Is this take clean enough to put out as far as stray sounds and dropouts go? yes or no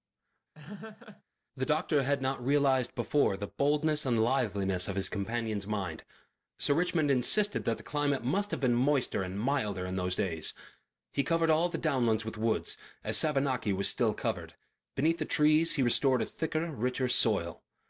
no